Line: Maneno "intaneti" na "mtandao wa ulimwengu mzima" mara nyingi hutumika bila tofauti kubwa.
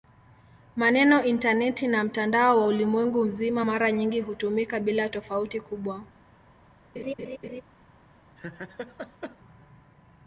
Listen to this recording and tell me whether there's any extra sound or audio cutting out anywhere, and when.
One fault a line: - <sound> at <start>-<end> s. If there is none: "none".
- laugh at 7.0-7.6 s
- laugh at 8.4-9.4 s